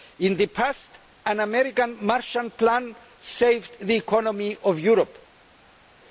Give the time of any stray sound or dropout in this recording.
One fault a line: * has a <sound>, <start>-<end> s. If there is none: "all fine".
all fine